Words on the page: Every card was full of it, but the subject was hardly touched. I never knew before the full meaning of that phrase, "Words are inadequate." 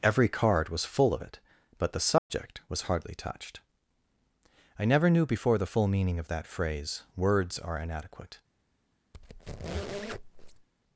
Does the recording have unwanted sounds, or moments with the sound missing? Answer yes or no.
yes